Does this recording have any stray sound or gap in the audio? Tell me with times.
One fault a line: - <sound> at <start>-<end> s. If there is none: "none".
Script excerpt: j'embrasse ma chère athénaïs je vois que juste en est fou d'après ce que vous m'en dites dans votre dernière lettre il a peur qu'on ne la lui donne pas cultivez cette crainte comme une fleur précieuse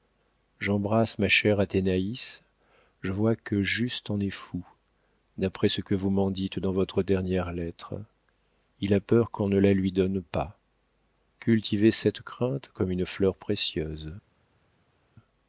none